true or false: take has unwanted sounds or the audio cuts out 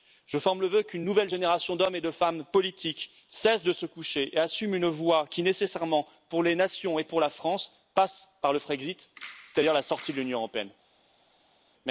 false